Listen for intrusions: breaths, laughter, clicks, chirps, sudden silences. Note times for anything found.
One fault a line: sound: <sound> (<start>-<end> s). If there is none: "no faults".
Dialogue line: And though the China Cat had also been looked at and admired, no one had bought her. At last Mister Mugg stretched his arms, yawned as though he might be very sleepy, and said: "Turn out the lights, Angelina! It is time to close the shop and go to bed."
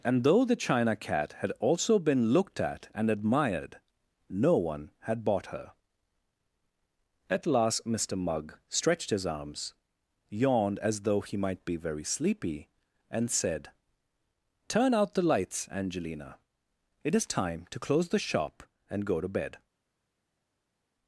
no faults